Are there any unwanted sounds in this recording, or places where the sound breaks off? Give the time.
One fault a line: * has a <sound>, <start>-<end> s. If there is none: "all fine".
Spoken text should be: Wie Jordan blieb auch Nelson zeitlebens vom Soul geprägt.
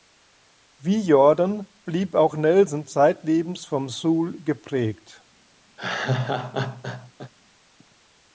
* has a laugh, 5.8-7.3 s